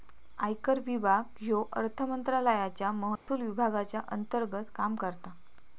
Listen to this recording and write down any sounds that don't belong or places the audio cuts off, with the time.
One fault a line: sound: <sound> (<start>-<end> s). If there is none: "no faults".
sound: dropout (3.2-3.3 s)